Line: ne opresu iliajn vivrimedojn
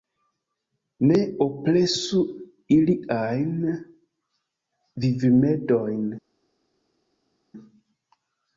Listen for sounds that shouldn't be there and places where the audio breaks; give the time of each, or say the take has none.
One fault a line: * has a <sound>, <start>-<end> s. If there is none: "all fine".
all fine